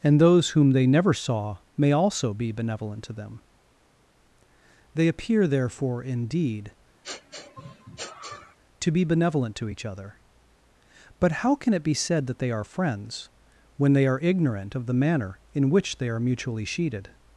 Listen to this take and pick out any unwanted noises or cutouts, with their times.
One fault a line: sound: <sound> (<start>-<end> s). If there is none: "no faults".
sound: sniff (7.0-8.6 s)